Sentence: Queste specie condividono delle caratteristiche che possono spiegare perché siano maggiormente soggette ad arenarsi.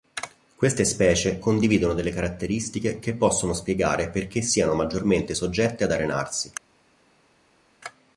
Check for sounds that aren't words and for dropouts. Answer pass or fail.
pass